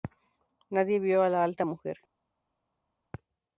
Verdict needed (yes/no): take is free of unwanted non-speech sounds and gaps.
yes